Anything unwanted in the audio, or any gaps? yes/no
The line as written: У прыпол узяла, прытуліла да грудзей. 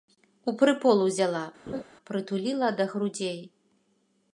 yes